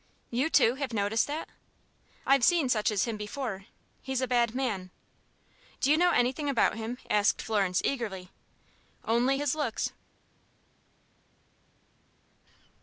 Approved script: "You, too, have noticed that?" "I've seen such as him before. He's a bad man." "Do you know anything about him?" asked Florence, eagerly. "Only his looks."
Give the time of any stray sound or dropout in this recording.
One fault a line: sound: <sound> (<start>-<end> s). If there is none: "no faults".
no faults